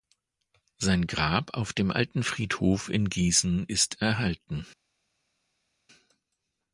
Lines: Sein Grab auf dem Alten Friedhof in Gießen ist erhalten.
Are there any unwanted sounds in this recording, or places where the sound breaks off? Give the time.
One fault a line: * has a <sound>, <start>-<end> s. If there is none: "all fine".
all fine